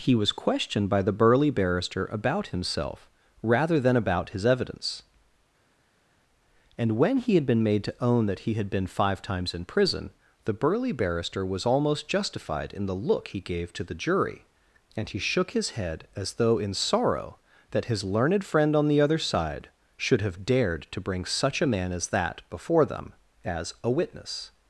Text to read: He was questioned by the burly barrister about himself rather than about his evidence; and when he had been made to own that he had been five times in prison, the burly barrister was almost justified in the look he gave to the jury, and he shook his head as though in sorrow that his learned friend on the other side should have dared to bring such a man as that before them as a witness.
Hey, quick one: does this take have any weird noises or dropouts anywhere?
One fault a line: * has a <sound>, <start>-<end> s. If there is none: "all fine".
all fine